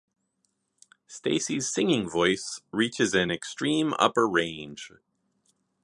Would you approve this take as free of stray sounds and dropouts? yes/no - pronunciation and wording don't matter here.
yes